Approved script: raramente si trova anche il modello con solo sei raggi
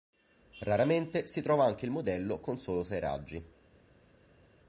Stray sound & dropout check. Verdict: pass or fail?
pass